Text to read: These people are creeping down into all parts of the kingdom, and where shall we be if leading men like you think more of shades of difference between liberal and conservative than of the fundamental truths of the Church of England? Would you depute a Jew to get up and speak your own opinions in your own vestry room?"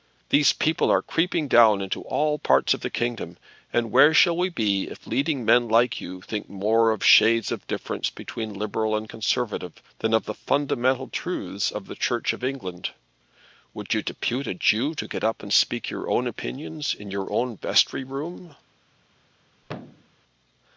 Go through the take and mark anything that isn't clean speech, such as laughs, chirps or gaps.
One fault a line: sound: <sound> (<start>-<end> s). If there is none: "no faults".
sound: thud (19.6-20.1 s)